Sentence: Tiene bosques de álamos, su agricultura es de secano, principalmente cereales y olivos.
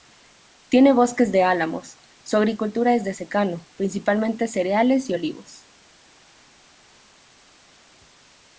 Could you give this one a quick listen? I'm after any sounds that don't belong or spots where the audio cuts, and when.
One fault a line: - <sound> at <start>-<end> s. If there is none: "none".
none